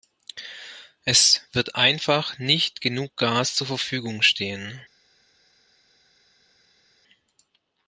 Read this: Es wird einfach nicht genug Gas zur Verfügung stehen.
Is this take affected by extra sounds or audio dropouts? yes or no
no